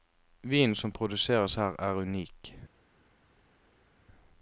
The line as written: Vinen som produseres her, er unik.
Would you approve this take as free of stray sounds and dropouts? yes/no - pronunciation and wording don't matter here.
yes